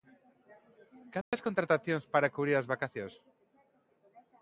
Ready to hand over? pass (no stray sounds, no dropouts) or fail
fail